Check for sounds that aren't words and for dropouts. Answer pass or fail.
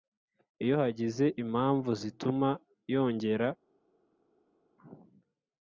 pass